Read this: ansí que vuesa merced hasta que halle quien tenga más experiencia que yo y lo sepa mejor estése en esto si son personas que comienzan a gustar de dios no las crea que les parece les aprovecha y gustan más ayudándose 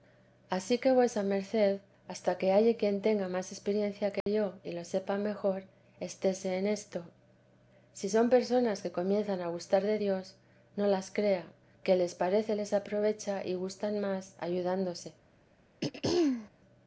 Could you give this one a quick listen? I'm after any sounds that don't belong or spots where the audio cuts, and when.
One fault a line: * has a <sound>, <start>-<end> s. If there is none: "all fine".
* has a dropout, 4.2-4.3 s
* has a throat clearing, 15.8-16.5 s